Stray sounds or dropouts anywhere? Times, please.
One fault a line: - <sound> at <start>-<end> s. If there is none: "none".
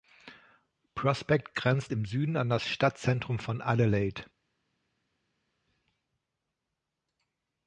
none